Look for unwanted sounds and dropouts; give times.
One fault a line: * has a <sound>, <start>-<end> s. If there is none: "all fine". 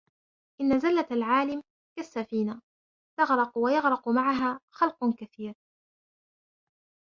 all fine